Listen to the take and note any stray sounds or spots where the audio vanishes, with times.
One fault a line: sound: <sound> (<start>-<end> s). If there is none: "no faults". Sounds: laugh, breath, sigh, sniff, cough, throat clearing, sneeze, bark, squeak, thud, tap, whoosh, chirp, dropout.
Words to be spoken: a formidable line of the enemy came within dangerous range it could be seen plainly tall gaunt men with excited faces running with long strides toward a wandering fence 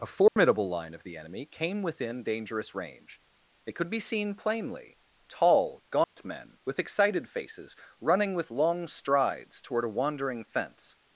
sound: dropout (0.3-0.4 s)
sound: dropout (6.0-6.2 s)